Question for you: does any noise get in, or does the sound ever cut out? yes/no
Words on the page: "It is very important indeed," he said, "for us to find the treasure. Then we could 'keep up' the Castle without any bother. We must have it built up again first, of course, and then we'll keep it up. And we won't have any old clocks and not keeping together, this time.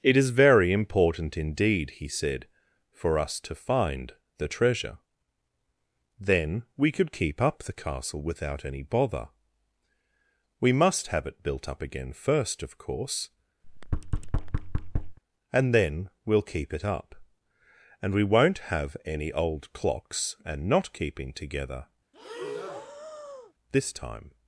yes